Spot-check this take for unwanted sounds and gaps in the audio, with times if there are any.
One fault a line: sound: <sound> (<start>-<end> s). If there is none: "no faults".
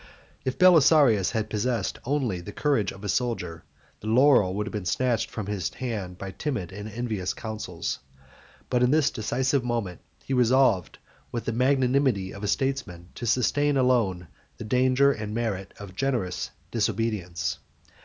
no faults